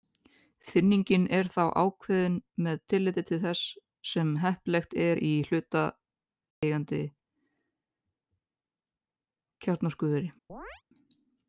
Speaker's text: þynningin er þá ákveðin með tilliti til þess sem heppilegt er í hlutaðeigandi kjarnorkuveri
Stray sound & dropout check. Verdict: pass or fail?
fail